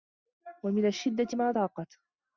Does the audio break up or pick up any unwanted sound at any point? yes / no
no